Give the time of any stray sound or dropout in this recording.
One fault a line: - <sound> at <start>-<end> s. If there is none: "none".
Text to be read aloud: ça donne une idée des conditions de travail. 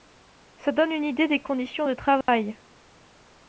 - dropout at 2.2-2.3 s